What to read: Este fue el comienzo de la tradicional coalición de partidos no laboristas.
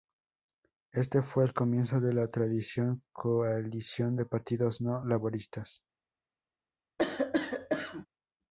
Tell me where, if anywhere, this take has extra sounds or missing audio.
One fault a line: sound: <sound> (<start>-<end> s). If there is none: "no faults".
sound: cough (7.0-8.1 s)